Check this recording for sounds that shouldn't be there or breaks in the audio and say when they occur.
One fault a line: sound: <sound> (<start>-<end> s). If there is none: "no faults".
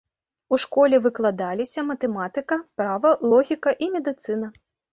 no faults